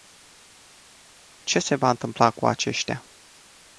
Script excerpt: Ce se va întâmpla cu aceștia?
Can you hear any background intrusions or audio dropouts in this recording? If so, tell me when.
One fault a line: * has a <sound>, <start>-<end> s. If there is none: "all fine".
all fine